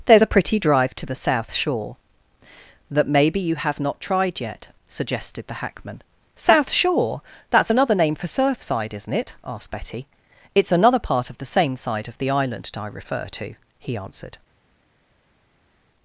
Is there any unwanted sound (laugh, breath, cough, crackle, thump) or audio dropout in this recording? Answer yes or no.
no